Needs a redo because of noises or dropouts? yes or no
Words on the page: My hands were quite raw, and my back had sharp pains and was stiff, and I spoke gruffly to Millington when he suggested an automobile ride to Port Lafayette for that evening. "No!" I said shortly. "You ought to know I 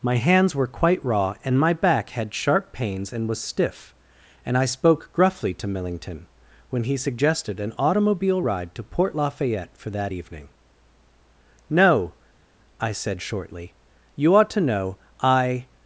no